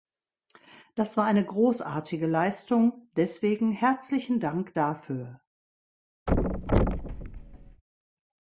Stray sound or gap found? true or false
true